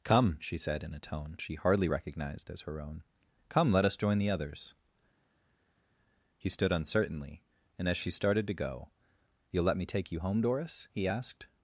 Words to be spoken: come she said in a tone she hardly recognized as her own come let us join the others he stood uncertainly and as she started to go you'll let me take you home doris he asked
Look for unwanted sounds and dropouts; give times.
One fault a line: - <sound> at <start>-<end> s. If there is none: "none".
none